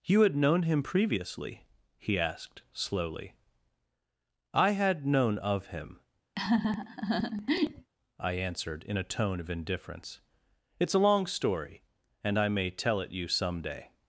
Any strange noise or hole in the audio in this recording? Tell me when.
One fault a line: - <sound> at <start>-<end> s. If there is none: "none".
- laugh at 6.4-7.9 s